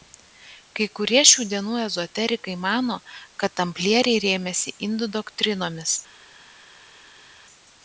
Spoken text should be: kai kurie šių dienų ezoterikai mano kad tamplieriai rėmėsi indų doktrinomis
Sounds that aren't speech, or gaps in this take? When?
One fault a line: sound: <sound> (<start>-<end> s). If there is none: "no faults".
no faults